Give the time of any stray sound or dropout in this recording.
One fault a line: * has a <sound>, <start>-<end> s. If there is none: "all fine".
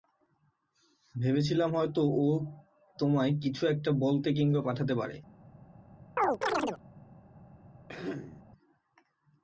* has a chirp, 6.2-6.8 s
* has a throat clearing, 7.9-8.4 s